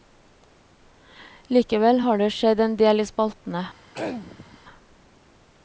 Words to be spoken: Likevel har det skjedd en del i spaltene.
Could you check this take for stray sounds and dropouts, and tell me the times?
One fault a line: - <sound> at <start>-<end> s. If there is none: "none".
- throat clearing at 3.9-4.6 s